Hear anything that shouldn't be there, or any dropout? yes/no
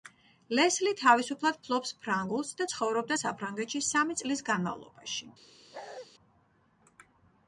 yes